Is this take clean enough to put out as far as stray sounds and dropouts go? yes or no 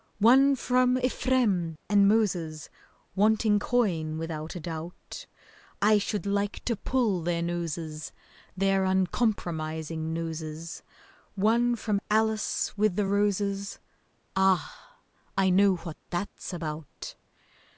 yes